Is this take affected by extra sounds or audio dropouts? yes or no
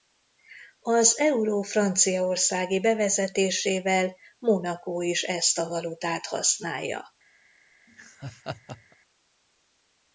yes